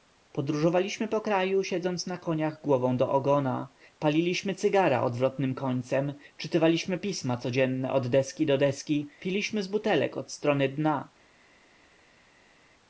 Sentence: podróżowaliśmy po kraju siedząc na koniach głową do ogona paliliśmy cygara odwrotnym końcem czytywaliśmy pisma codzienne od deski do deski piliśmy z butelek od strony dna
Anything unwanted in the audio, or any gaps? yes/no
no